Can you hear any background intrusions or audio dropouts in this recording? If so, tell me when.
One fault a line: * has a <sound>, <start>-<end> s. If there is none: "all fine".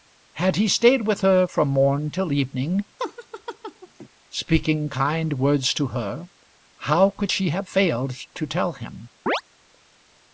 * has a laugh, 3.0-4.1 s
* has a chirp, 9.3-9.4 s